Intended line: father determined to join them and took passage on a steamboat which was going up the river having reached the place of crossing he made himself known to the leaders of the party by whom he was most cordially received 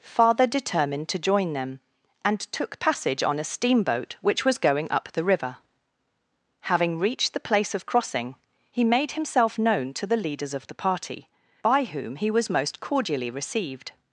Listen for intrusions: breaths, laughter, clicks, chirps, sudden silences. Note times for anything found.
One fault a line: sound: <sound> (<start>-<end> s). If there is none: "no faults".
no faults